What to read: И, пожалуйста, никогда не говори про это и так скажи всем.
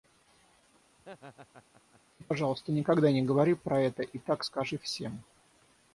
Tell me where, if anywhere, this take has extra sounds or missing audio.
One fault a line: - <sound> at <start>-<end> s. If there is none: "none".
- laugh at 1.0-2.0 s